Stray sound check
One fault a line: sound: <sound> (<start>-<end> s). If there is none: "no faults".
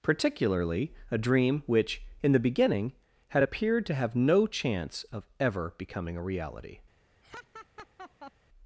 sound: laugh (7.2-8.3 s)